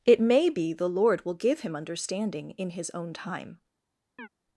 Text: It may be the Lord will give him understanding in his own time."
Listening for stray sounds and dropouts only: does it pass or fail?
fail